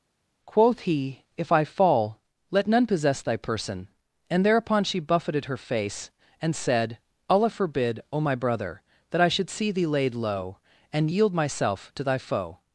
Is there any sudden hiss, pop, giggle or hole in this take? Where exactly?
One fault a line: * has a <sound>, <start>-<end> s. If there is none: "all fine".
all fine